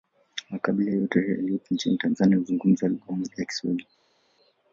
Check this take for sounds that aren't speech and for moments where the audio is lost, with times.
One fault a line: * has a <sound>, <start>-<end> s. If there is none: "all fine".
all fine